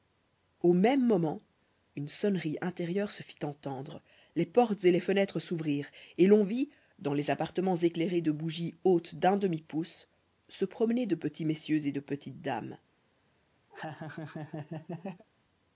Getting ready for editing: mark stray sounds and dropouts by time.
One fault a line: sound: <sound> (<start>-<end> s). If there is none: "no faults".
sound: laugh (13.7-15.2 s)